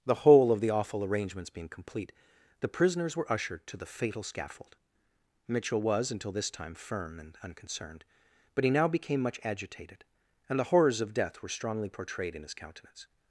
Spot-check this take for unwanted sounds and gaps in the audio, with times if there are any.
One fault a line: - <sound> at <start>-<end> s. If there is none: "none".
none